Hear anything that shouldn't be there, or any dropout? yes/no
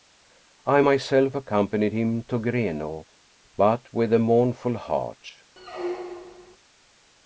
yes